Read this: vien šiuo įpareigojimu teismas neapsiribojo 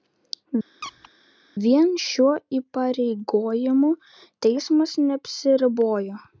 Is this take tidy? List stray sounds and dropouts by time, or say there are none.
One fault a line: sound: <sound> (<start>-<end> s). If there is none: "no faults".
sound: squeak (0.8-1.1 s)